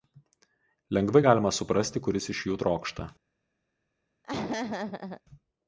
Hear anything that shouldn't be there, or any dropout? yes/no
yes